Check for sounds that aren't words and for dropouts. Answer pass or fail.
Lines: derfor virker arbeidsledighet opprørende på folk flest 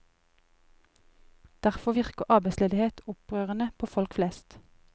pass